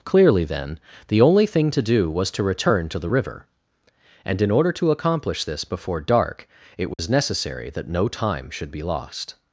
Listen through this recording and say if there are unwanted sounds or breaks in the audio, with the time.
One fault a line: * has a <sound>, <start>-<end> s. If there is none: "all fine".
* has a dropout, 6.9-7.0 s